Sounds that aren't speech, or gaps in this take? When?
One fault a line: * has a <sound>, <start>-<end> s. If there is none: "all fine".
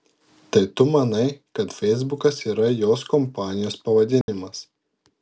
* has a dropout, 4.2-4.3 s